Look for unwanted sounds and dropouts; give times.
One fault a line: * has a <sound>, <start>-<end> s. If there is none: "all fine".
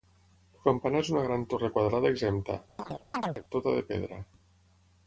* has a chirp, 2.8-3.4 s